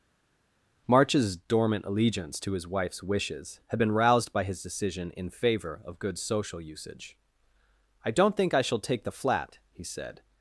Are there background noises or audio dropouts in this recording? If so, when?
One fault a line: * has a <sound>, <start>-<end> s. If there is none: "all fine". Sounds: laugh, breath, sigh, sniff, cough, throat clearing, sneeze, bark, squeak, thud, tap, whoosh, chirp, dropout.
all fine